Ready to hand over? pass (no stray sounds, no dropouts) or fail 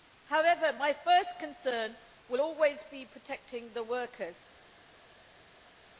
pass